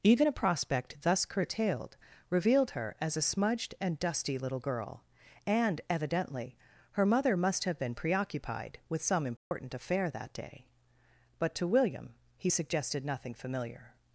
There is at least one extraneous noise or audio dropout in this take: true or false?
true